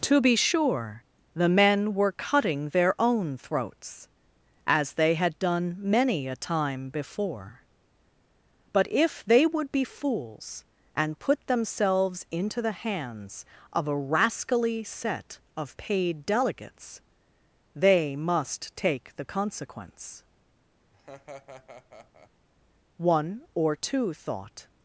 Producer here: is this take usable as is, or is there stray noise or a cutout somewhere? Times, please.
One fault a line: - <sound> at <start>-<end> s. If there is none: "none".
- laugh at 20.9-22.3 s